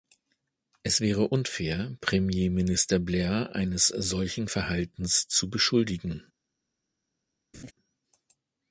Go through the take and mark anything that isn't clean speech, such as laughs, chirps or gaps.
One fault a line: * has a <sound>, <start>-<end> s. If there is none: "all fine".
* has a laugh, 7.5-7.7 s